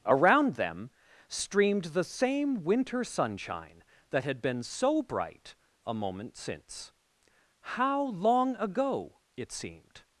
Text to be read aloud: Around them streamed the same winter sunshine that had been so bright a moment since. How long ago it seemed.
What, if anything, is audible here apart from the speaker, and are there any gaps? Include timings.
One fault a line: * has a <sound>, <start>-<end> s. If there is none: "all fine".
all fine